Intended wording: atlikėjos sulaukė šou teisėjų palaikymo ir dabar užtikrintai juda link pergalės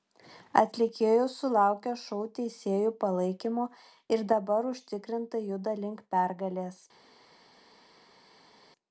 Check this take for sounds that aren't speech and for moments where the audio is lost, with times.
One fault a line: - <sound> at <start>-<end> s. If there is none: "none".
none